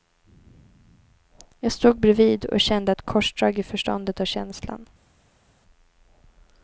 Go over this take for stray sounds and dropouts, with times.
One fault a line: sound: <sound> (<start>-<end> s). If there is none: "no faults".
no faults